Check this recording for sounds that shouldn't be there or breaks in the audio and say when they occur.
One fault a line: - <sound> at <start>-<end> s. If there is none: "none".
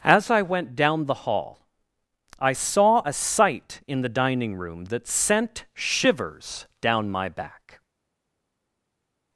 none